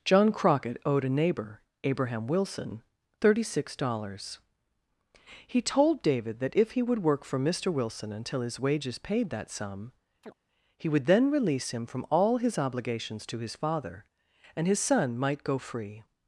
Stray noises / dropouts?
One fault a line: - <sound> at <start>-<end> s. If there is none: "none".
- chirp at 10.2-10.4 s